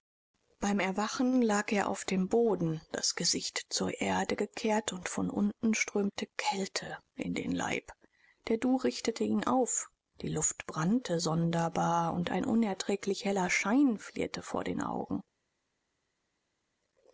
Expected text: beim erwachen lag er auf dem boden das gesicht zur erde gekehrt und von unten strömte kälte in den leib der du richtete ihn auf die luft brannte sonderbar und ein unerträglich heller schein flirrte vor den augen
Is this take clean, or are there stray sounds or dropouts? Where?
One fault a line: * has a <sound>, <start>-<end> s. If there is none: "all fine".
all fine